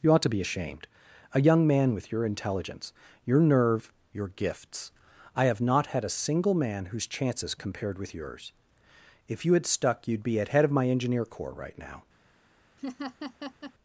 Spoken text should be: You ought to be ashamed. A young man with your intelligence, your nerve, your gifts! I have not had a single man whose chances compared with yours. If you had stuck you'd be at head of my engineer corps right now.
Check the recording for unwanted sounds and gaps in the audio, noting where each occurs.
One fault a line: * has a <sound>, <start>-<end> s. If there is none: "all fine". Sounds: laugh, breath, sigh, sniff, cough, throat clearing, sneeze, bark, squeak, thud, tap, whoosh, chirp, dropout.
* has a laugh, 12.8-13.7 s